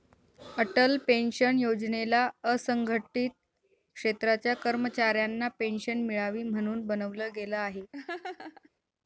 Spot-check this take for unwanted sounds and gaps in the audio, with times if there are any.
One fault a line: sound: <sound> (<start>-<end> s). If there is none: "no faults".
sound: laugh (7.9-8.7 s)